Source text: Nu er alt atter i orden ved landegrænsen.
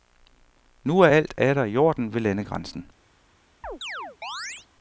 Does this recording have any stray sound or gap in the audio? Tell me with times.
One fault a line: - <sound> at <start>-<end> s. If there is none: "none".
- chirp at 3.6-4.7 s